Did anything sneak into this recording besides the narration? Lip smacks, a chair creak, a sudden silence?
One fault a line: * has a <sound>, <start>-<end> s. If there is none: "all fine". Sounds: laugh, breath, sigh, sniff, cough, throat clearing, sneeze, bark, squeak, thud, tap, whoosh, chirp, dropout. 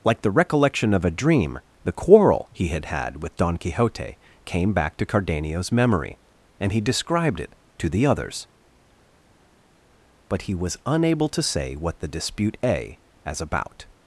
all fine